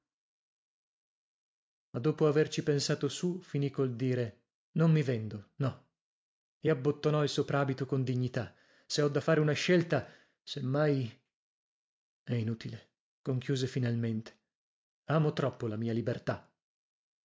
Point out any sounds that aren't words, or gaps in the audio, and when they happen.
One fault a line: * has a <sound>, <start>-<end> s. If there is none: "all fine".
all fine